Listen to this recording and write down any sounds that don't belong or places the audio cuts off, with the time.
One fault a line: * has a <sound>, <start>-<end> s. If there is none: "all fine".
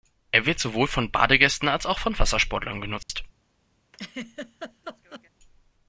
* has a dropout, 3.0-3.1 s
* has a laugh, 3.9-5.3 s